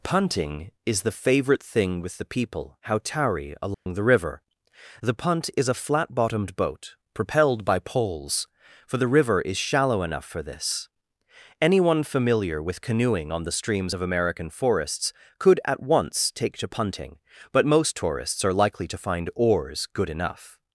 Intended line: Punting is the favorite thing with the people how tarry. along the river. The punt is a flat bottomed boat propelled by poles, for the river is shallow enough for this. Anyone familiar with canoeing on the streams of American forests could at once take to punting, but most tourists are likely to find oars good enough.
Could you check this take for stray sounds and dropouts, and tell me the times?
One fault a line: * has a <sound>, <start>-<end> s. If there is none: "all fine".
* has a dropout, 3.7-3.9 s